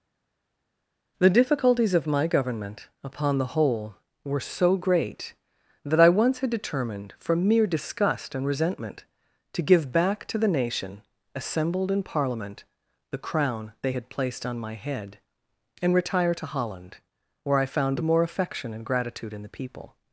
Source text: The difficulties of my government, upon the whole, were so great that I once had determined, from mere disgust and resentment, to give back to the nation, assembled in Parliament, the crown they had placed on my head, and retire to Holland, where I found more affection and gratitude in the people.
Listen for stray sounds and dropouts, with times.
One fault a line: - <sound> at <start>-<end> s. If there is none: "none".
none